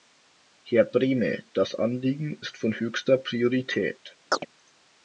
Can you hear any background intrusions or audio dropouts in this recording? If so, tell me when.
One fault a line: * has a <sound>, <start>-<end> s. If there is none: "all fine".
* has a chirp, 4.3-4.5 s